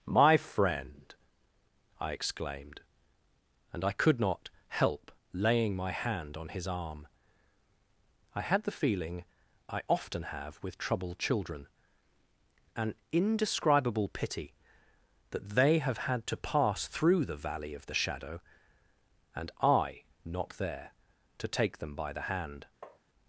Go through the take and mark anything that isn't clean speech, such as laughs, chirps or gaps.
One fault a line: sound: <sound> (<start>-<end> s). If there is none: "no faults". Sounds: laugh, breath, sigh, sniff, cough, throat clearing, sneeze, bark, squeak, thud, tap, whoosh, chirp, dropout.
sound: tap (22.8-23.0 s)